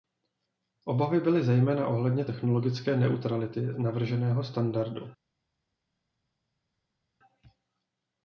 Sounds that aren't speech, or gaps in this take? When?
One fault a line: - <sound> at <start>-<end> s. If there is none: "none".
none